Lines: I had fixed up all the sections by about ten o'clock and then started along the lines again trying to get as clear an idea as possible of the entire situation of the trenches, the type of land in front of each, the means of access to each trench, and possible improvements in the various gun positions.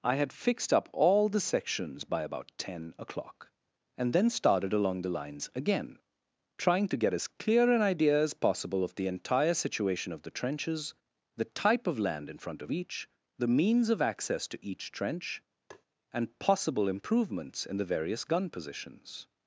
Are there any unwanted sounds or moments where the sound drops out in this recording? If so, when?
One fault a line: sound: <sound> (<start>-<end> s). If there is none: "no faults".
sound: tap (15.7-15.9 s)